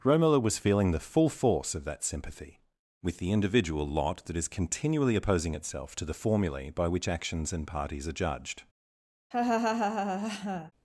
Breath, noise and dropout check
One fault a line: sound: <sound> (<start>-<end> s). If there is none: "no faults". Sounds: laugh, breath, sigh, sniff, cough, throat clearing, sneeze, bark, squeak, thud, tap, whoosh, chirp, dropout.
sound: laugh (9.3-10.7 s)